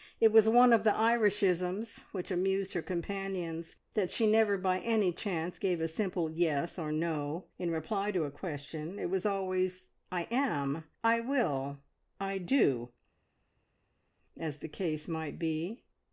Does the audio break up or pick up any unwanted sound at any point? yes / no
no